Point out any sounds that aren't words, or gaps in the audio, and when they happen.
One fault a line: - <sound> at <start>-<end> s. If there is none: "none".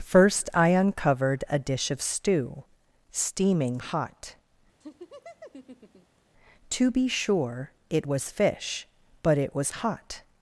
- laugh at 4.8-6.2 s